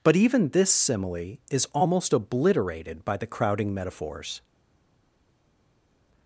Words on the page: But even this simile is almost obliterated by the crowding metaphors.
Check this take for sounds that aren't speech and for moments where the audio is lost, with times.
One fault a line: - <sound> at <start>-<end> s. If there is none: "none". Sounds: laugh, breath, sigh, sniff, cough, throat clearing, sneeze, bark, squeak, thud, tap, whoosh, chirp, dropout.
none